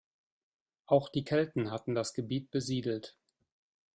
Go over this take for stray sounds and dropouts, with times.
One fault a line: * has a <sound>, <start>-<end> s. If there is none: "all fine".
all fine